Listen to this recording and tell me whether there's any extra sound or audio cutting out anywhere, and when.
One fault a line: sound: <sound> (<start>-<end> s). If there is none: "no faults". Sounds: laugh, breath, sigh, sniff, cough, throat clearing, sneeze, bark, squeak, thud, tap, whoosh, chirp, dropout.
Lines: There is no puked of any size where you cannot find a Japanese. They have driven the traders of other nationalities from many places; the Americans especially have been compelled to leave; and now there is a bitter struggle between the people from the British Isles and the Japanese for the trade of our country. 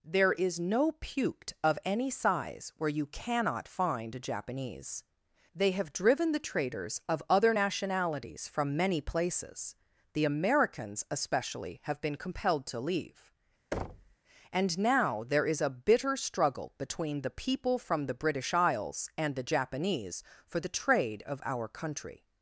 sound: thud (13.7-14.2 s)